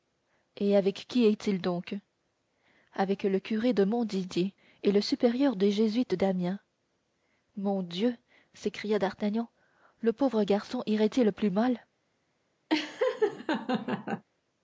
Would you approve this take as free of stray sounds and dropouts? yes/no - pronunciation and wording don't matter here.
no